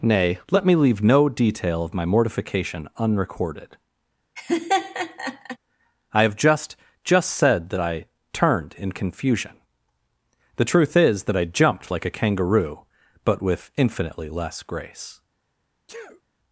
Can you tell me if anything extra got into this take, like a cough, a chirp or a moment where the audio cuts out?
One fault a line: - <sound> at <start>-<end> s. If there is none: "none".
- laugh at 4.4-5.6 s
- sneeze at 15.9-16.2 s